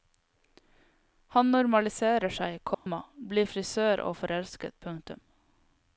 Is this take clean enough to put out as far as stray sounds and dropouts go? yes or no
no